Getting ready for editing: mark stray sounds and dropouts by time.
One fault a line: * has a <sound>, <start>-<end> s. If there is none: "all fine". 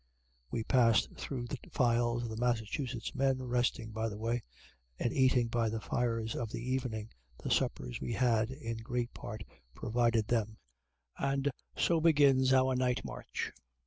all fine